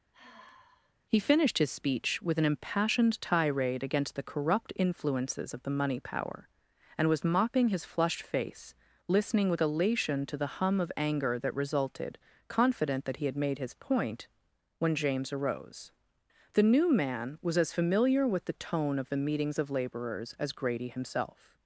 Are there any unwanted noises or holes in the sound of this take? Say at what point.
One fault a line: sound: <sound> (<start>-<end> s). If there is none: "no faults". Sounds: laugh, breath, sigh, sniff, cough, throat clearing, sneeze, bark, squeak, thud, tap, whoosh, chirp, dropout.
sound: sigh (0.1-0.9 s)